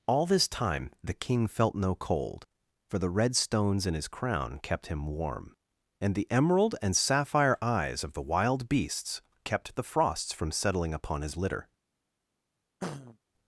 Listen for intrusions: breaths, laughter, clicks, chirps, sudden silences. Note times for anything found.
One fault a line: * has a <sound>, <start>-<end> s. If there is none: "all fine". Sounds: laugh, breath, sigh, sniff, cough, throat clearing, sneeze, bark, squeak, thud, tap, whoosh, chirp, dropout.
* has a throat clearing, 12.8-13.2 s